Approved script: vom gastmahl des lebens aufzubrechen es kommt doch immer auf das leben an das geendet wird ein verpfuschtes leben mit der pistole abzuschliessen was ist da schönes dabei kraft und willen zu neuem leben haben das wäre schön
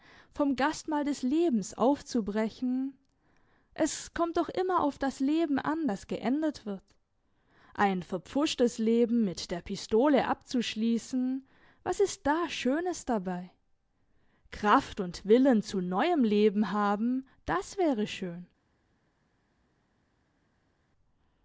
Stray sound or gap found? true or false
false